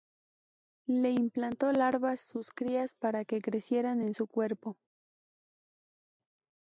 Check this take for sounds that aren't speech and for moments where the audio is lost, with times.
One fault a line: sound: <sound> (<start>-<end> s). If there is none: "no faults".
no faults